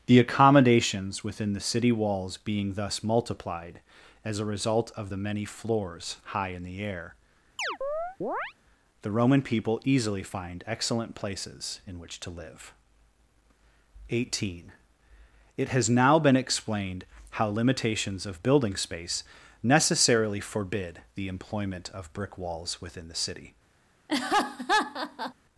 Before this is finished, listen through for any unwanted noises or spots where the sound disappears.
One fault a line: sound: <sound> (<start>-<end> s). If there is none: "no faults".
sound: chirp (7.6-8.5 s)
sound: laugh (24.1-25.3 s)